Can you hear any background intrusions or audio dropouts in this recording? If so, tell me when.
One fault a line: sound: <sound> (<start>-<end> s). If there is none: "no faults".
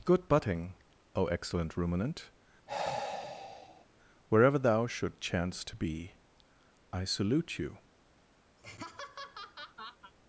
sound: sigh (2.7-3.9 s)
sound: laugh (8.6-10.1 s)